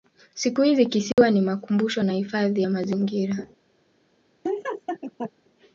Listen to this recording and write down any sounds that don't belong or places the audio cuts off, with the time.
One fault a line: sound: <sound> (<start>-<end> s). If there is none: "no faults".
sound: dropout (1.1-1.2 s)
sound: laugh (4.4-5.3 s)